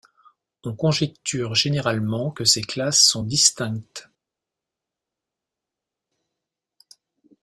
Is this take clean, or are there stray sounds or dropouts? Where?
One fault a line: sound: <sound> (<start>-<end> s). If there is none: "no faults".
no faults